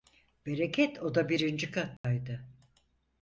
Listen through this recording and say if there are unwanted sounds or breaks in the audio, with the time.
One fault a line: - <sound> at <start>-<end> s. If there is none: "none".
- dropout at 2.0-2.0 s